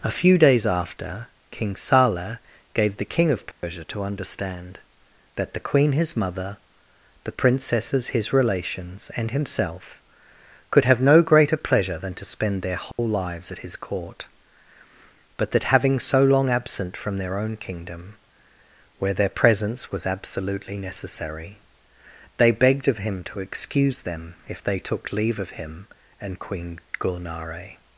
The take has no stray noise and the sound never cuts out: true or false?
false